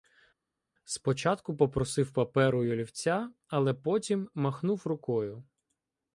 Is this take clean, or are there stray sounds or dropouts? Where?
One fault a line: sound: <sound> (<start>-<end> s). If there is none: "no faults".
no faults